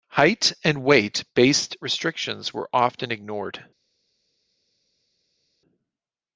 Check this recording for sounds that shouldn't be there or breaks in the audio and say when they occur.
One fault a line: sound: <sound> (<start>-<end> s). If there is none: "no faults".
no faults